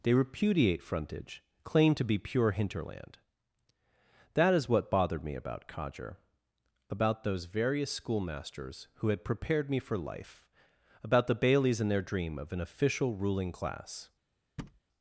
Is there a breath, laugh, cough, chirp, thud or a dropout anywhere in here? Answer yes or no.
yes